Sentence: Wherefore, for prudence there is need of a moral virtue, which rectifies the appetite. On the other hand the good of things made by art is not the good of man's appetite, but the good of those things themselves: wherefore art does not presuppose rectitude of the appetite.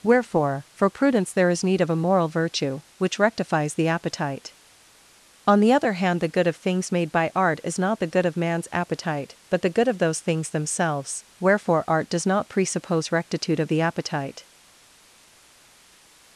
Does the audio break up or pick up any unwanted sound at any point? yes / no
no